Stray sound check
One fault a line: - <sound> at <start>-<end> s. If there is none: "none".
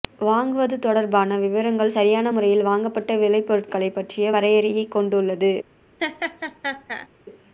- laugh at 6.0-7.1 s